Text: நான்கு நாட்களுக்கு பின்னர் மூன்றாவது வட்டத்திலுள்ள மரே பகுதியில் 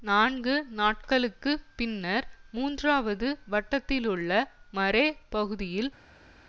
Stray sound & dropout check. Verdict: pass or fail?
pass